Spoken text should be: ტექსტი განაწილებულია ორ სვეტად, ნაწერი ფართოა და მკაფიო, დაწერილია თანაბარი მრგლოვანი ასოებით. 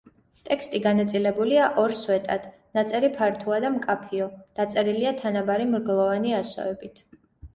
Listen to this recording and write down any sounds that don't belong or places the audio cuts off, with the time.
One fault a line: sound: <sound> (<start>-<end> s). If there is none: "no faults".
no faults